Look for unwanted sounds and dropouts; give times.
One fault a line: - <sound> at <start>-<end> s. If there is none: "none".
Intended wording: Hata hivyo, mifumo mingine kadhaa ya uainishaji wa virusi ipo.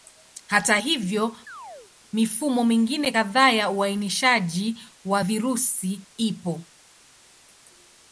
- chirp at 1.5-1.9 s